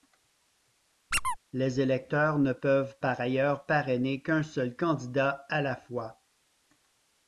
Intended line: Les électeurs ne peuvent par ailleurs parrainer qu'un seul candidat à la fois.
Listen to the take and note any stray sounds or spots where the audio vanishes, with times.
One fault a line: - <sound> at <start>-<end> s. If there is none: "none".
- squeak at 1.1-1.4 s